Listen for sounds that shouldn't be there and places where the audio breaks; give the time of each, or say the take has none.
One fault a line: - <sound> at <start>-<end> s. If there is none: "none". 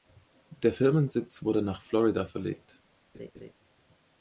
- laugh at 3.1-3.5 s